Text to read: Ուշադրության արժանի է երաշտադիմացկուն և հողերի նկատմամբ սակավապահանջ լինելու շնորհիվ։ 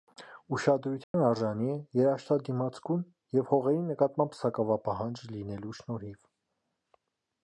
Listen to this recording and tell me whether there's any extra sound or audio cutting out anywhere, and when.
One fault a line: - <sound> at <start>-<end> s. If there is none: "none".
- dropout at 1.0-1.1 s